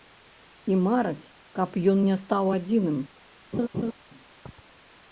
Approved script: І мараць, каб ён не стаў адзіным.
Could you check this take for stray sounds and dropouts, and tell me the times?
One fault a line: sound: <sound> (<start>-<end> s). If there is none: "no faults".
sound: laugh (3.5-3.9 s)